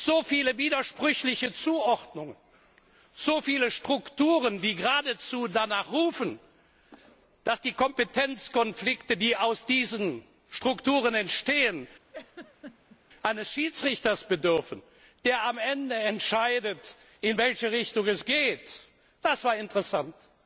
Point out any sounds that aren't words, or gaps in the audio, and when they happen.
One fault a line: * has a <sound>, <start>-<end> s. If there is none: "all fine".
* has a laugh, 12.1-13.0 s